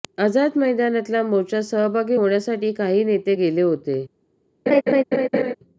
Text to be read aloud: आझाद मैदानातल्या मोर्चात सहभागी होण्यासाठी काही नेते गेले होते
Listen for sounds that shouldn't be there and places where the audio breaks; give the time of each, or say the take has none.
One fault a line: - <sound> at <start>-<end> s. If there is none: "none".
- laugh at 4.7-5.5 s